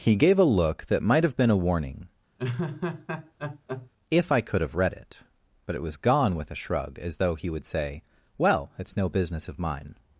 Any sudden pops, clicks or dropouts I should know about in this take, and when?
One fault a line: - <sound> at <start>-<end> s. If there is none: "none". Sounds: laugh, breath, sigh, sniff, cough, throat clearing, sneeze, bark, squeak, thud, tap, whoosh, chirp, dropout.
- laugh at 2.4-3.9 s